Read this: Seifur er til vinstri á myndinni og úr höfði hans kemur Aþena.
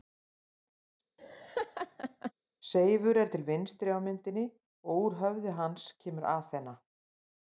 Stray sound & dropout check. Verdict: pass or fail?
fail